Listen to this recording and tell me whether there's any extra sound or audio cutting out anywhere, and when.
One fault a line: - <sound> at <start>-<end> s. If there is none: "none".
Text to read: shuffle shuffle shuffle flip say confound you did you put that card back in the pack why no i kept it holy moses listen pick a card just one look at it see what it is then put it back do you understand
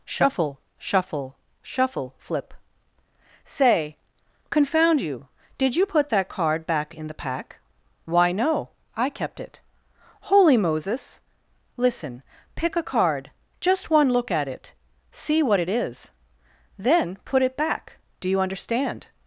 none